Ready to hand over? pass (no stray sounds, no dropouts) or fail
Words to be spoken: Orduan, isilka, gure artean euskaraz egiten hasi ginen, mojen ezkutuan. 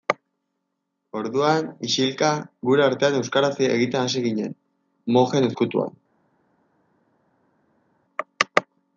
pass